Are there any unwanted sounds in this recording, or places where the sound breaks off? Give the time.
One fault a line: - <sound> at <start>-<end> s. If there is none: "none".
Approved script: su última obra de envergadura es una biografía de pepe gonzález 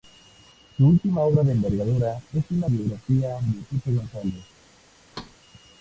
- thud at 5.1-5.4 s